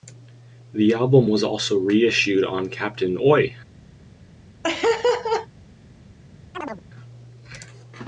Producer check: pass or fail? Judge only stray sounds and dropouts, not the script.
fail